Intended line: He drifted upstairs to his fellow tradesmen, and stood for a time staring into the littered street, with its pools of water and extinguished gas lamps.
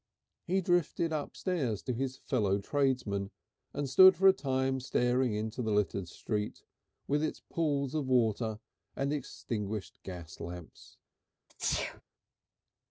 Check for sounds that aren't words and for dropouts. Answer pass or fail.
fail